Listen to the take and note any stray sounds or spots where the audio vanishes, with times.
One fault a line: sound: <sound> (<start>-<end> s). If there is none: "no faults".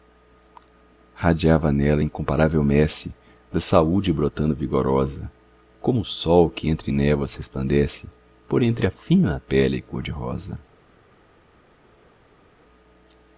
no faults